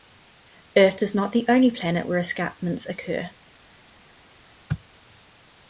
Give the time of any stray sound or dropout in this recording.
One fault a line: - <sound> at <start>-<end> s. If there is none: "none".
none